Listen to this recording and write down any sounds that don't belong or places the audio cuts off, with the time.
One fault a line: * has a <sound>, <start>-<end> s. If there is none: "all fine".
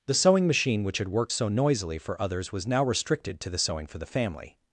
all fine